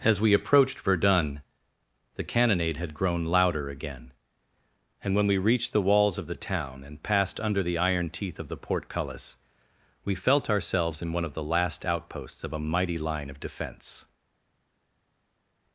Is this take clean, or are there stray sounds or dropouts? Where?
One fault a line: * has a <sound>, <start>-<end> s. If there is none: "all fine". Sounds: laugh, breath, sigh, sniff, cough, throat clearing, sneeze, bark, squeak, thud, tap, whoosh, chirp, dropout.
all fine